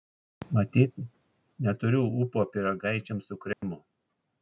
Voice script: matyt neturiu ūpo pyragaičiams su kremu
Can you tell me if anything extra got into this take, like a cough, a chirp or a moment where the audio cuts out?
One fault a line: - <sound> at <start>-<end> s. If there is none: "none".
- dropout at 3.5-3.6 s